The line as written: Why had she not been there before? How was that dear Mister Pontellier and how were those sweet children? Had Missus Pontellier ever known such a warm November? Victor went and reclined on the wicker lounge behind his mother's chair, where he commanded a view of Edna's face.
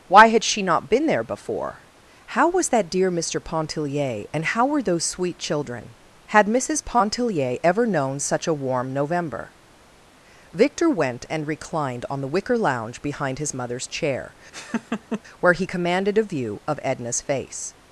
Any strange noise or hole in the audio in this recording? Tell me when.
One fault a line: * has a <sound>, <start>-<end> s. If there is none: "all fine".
* has a laugh, 14.5-15.2 s